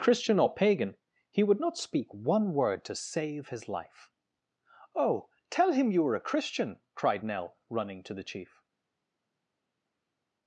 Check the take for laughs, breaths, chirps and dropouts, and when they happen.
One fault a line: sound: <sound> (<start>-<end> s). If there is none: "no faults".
no faults